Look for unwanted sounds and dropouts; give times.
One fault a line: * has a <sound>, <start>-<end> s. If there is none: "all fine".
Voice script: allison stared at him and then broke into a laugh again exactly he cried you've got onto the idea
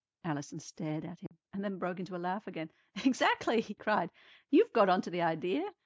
* has a dropout, 1.3-1.3 s